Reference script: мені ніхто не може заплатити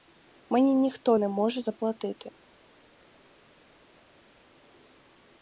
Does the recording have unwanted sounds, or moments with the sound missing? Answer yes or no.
no